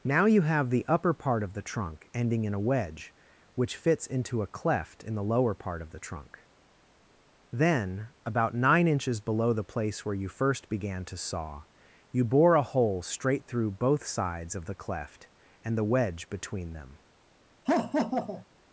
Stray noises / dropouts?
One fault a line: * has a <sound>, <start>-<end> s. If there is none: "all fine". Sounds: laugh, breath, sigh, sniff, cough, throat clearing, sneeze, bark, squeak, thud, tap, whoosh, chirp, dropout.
* has a laugh, 17.7-18.5 s